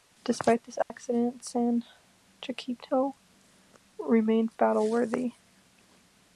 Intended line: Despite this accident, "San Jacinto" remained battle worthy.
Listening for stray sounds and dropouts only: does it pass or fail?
fail